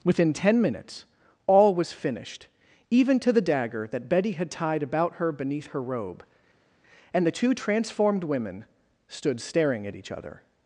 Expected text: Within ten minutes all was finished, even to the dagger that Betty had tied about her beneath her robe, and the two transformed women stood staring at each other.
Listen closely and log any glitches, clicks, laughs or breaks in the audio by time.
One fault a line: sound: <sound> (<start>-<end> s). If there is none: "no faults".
no faults